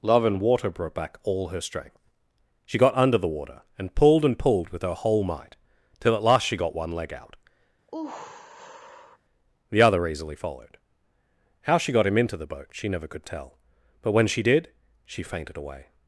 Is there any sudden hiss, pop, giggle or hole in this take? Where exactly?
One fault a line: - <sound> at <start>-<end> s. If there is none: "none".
- sigh at 7.9-9.2 s